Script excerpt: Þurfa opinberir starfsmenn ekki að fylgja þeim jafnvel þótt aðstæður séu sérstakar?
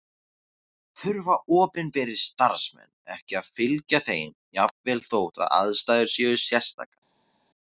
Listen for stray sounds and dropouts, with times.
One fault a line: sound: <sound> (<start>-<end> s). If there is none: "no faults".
no faults